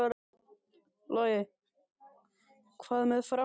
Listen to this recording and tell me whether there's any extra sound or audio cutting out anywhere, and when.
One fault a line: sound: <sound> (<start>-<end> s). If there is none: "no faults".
no faults